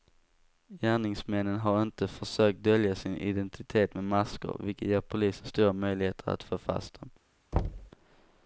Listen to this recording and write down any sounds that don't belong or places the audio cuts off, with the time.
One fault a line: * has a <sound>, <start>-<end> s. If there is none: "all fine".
* has a thud, 7.5-7.9 s